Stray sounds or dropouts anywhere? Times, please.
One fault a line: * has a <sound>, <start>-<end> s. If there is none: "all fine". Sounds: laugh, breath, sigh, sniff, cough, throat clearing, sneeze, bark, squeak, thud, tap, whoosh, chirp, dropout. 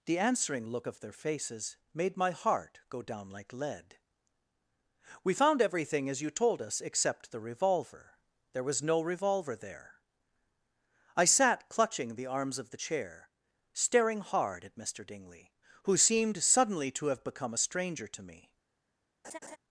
* has a laugh, 19.2-19.6 s